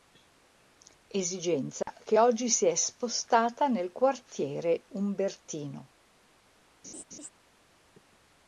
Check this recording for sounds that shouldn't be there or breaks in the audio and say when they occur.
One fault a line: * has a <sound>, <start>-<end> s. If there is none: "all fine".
* has a dropout, 1.8-1.9 s
* has a laugh, 6.8-7.3 s